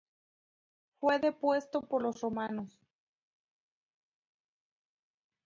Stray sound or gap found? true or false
false